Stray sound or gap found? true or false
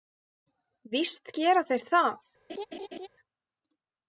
true